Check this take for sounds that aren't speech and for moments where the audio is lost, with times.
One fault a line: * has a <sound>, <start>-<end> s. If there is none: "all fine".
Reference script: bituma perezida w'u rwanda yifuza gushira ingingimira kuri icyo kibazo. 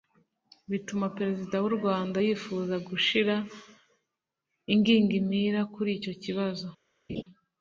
* has a laugh, 7.1-7.2 s